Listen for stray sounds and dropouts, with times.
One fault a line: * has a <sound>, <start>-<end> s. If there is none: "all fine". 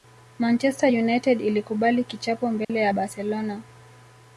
* has a dropout, 2.6-2.7 s